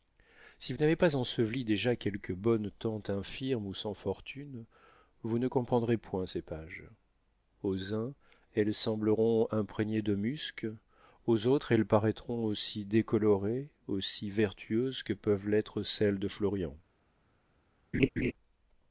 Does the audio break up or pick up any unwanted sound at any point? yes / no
yes